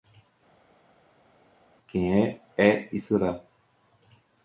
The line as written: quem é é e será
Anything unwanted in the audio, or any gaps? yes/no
no